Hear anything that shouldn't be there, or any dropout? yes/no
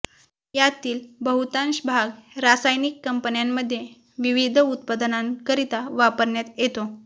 no